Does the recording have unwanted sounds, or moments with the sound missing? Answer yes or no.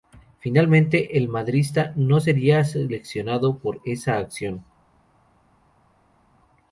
no